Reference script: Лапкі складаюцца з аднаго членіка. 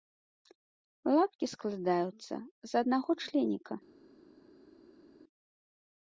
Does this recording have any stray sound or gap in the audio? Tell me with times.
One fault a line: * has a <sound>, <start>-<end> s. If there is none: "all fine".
all fine